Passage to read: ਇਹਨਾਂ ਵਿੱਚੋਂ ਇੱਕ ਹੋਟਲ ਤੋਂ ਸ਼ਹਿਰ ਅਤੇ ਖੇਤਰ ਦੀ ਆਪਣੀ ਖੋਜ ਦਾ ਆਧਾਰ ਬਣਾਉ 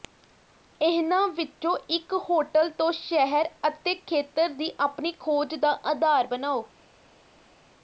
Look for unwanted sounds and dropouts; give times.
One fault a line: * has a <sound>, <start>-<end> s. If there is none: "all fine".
all fine